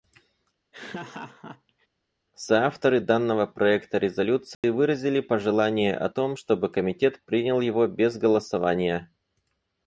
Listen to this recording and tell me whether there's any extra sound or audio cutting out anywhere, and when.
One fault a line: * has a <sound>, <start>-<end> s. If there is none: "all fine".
* has a laugh, 0.7-1.9 s
* has a dropout, 4.5-4.6 s